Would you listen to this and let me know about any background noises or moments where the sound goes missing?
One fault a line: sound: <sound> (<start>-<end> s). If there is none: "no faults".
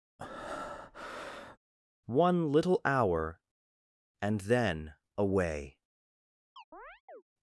sound: breath (0.2-1.6 s)
sound: chirp (6.6-7.2 s)